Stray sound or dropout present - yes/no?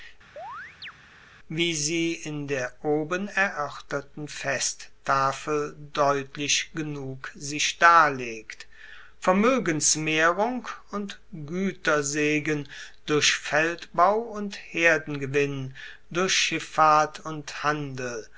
yes